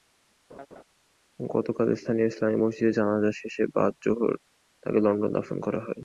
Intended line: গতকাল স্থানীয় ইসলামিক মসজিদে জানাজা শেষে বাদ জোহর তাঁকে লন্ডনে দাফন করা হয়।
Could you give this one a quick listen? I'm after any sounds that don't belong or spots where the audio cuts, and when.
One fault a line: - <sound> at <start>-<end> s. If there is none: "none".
- laugh at 0.5-0.8 s